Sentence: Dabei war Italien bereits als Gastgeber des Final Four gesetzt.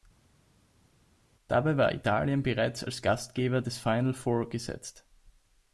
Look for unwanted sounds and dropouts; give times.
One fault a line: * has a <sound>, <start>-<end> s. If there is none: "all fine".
all fine